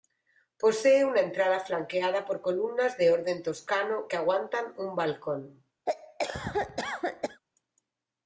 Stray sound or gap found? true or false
true